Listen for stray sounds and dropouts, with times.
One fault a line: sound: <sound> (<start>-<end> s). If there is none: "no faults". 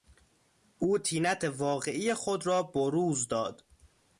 no faults